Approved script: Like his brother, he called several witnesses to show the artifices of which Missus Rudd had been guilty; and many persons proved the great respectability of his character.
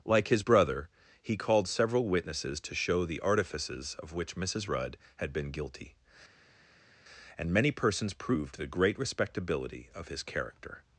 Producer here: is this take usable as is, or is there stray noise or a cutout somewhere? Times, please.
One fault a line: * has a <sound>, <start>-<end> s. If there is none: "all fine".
all fine